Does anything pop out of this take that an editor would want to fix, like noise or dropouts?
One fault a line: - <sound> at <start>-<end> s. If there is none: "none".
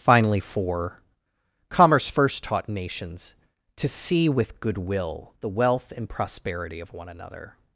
none